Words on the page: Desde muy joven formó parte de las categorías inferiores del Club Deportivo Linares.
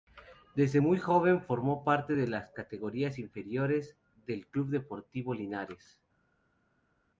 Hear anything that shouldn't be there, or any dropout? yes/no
no